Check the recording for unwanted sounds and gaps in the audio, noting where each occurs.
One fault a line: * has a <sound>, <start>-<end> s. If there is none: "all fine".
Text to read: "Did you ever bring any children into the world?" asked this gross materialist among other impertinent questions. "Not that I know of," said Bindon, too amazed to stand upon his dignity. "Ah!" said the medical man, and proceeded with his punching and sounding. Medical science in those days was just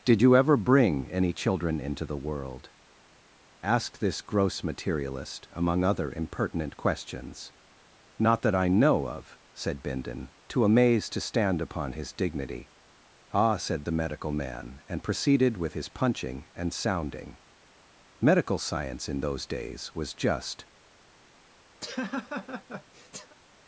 * has a laugh, 21.8-23.4 s